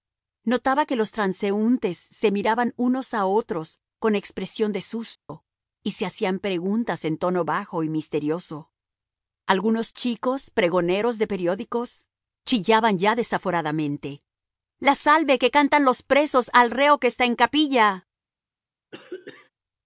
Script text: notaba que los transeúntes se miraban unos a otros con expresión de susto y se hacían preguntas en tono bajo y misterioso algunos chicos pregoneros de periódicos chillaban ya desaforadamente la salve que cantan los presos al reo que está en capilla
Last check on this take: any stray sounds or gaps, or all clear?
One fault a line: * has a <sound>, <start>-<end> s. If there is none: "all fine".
* has a dropout, 5.2-5.3 s
* has a throat clearing, 18.9-19.5 s